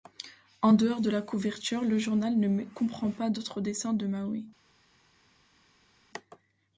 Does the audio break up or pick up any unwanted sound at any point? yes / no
no